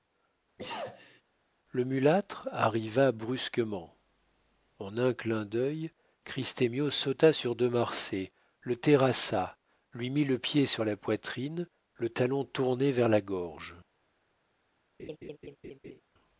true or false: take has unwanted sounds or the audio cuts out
true